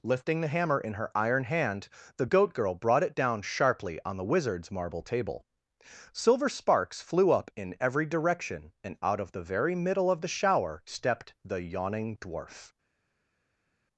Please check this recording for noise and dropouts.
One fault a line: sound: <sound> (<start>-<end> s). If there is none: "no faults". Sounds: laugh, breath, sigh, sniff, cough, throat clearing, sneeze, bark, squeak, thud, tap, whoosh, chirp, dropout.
no faults